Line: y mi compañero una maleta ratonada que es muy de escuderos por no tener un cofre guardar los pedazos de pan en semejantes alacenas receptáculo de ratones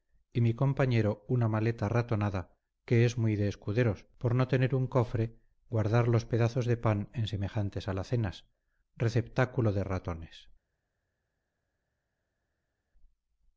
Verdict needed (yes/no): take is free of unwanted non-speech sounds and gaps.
yes